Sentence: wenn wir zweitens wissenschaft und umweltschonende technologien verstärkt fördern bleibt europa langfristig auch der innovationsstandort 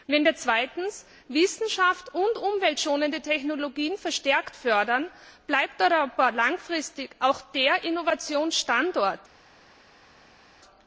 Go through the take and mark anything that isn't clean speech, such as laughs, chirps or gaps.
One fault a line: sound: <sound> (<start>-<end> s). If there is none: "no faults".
no faults